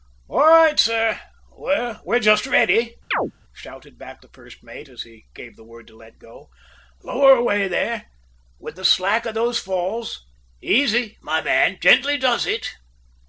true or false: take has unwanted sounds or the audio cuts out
true